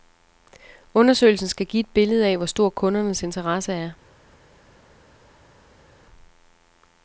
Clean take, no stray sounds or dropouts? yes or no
yes